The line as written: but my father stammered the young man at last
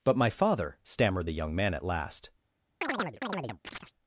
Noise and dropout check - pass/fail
fail